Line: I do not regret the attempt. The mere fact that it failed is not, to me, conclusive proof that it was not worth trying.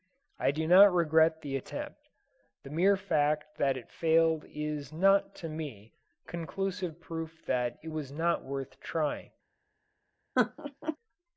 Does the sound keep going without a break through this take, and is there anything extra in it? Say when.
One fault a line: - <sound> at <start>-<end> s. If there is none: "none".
- laugh at 10.4-11.0 s